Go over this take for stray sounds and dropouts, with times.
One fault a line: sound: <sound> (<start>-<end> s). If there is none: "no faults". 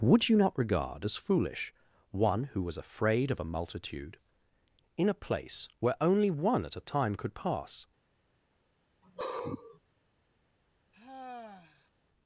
sound: sigh (9.0-9.8 s)
sound: sigh (10.9-11.9 s)